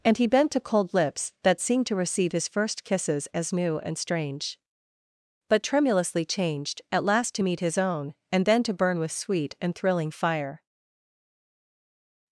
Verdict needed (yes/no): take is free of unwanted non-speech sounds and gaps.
yes